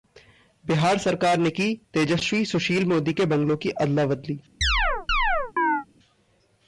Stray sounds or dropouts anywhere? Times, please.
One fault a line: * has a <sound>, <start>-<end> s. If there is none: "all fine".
* has a chirp, 4.6-5.9 s